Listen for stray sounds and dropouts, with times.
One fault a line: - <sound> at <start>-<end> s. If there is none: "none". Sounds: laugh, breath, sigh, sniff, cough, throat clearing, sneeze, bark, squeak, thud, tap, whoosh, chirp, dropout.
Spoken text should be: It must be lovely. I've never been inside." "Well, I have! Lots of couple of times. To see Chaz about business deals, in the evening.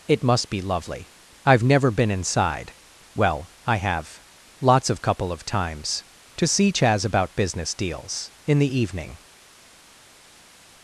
none